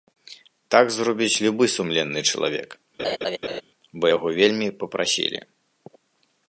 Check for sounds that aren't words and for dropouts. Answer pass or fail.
fail